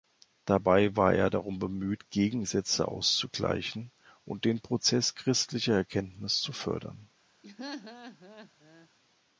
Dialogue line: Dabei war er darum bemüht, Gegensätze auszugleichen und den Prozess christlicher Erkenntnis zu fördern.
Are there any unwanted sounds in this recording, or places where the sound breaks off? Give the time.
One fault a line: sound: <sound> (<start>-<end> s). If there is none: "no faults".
sound: laugh (7.4-8.9 s)